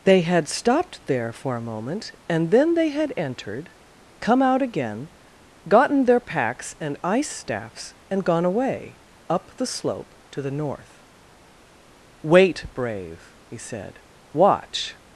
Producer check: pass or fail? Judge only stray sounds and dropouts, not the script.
pass